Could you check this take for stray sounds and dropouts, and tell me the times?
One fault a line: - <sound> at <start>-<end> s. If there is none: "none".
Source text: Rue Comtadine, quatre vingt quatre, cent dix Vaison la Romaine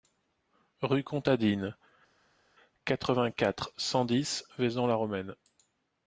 none